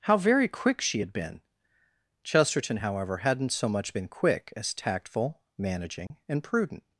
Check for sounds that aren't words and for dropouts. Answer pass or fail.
fail